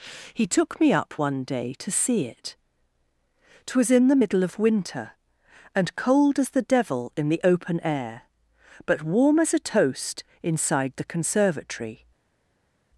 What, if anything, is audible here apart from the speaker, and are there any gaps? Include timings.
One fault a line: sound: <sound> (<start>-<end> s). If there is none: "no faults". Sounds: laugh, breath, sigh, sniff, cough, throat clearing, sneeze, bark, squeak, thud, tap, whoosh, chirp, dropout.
no faults